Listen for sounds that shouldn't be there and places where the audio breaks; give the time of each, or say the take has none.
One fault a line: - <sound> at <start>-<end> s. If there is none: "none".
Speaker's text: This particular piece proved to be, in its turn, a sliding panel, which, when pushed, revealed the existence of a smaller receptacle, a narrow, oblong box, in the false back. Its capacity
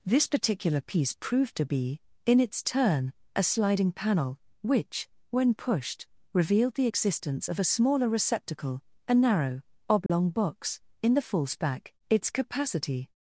- dropout at 10.1-10.1 s